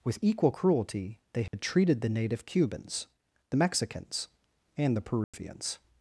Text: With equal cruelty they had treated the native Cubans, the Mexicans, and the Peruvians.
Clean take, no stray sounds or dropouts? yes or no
no